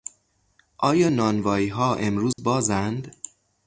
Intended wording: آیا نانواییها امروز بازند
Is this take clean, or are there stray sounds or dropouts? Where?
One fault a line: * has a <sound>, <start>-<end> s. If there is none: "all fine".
* has a dropout, 2.3-2.4 s